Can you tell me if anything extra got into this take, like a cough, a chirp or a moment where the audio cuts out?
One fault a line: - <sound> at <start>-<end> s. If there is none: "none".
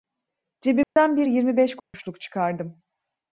- dropout at 0.8-1.0 s
- dropout at 1.8-1.9 s